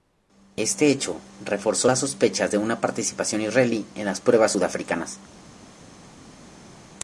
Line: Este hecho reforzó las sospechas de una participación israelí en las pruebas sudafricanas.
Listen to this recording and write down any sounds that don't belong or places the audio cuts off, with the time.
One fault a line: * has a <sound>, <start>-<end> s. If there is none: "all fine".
all fine